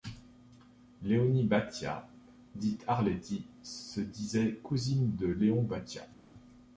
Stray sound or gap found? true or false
false